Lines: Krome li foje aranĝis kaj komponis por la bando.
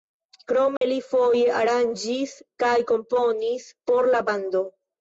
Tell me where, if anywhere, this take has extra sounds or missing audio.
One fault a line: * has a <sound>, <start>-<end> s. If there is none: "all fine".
* has a dropout, 0.8-0.8 s